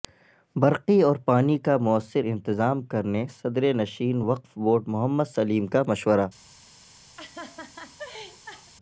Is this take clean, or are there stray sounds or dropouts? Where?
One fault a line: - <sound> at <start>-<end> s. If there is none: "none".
- laugh at 7.2-8.7 s